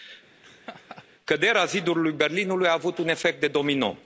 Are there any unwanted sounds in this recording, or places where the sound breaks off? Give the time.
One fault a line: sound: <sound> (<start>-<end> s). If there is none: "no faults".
sound: laugh (0.4-1.1 s)